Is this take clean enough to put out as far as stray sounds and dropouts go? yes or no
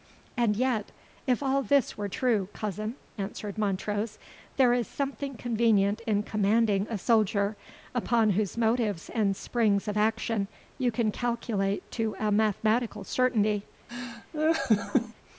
no